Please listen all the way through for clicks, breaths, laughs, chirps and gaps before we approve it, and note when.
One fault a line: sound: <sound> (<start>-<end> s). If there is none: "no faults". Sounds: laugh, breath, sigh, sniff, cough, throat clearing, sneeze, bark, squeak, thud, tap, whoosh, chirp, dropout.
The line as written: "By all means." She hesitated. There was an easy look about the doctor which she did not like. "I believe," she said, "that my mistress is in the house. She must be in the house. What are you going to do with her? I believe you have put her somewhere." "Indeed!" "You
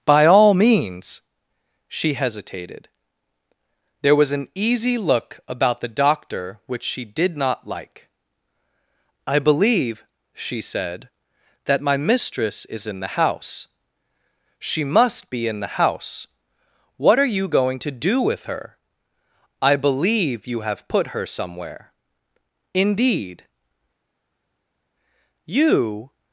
no faults